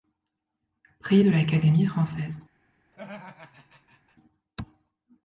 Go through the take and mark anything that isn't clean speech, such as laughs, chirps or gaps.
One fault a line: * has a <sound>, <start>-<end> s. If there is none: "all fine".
* has a laugh, 2.9-4.2 s